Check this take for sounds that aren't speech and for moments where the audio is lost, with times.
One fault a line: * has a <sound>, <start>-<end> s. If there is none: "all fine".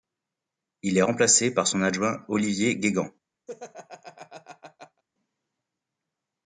* has a laugh, 3.5-5.0 s